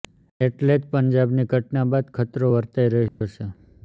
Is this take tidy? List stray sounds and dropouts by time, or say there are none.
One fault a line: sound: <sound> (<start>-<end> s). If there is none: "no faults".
sound: dropout (3.1-3.2 s)